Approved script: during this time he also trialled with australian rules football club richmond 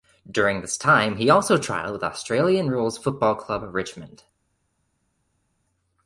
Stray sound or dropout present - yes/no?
no